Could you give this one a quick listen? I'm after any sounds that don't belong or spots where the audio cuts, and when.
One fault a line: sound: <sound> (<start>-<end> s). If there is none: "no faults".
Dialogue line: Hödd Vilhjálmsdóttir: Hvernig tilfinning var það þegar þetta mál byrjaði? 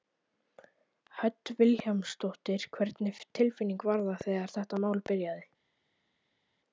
no faults